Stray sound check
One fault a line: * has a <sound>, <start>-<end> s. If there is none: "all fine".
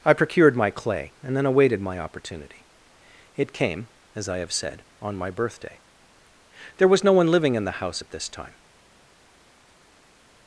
all fine